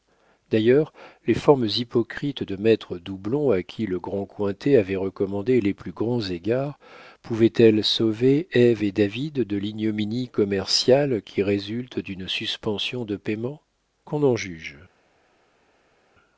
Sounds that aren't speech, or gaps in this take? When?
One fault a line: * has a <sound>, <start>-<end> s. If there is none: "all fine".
all fine